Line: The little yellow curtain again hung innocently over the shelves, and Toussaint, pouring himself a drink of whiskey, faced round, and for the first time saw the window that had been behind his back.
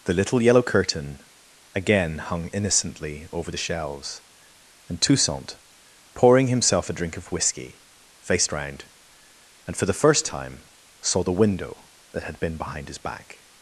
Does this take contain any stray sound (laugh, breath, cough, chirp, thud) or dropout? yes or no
no